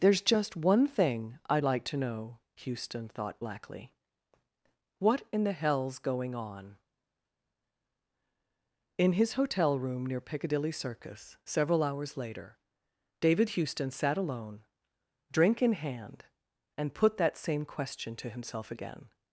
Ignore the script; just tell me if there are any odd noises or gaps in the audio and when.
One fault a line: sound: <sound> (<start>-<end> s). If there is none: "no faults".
no faults